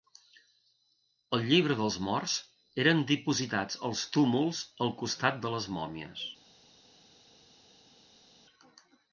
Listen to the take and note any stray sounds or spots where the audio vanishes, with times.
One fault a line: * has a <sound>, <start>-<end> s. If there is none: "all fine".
all fine